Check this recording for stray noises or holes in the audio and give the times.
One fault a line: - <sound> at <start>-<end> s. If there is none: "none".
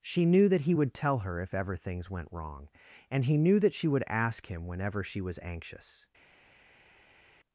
none